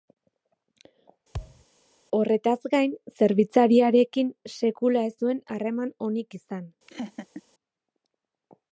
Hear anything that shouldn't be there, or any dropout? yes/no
yes